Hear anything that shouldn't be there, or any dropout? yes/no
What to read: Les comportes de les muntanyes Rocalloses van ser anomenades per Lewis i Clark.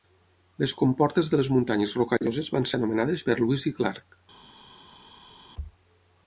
no